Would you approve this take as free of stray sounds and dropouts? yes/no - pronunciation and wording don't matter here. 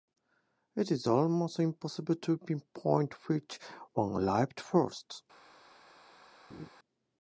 no